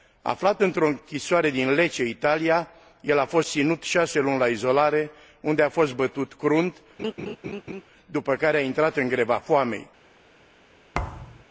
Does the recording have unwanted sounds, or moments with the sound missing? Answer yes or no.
yes